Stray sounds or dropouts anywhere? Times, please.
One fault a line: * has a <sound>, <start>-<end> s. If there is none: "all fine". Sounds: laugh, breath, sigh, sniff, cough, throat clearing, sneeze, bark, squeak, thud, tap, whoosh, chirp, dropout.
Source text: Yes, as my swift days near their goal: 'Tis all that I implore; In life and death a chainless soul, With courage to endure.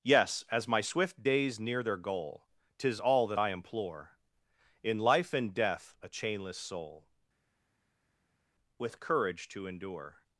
all fine